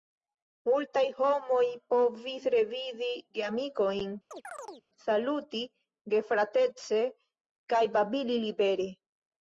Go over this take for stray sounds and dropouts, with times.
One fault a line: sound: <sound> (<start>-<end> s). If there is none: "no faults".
sound: chirp (4.3-4.9 s)